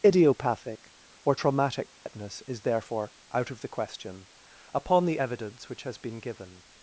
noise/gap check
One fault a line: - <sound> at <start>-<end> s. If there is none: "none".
- dropout at 1.9-2.1 s